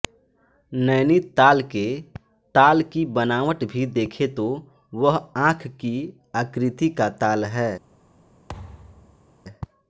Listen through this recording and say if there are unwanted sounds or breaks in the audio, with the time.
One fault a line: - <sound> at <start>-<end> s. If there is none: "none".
- thud at 8.5-9.3 s